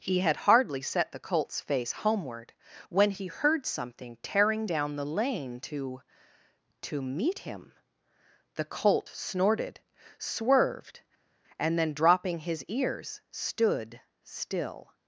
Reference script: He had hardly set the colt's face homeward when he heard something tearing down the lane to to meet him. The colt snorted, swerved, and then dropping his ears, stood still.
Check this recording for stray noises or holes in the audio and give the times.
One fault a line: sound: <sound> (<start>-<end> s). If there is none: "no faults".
no faults